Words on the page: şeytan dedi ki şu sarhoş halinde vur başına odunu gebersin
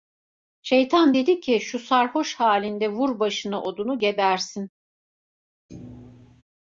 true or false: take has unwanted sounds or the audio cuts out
true